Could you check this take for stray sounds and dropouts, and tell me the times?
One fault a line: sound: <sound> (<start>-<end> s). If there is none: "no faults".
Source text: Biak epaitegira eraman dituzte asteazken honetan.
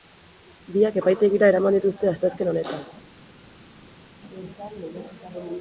no faults